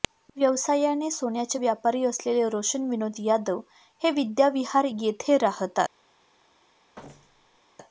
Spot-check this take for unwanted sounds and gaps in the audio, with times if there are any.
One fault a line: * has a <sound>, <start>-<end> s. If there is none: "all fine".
* has a thud, 7.0-7.6 s